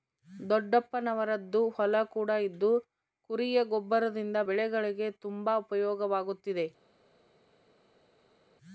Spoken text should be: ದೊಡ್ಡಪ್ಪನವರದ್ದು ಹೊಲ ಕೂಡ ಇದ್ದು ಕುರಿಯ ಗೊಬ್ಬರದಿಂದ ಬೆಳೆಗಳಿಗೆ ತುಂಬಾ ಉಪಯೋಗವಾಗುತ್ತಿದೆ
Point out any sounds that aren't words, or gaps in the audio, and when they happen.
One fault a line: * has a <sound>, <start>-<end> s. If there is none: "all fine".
all fine